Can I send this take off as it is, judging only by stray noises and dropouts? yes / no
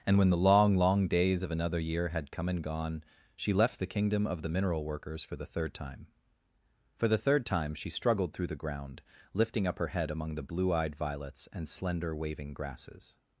yes